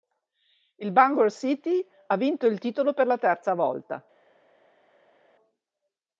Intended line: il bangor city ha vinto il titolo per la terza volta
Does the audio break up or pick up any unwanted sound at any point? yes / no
no